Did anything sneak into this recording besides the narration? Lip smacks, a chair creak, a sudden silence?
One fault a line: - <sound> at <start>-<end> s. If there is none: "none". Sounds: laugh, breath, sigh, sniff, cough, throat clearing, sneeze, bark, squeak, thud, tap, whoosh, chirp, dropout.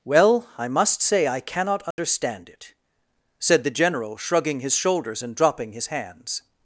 - dropout at 1.9-2.0 s